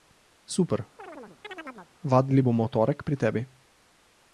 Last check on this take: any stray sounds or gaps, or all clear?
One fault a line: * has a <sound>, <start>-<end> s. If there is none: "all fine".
* has a chirp, 1.0-1.9 s